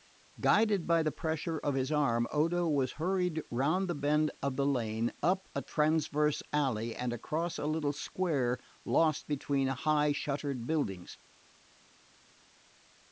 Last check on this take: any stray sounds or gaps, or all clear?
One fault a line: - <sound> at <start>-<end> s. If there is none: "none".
none